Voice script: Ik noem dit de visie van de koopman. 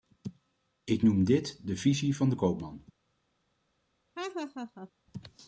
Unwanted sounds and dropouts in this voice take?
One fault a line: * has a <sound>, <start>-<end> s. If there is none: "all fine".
* has a laugh, 4.2-4.9 s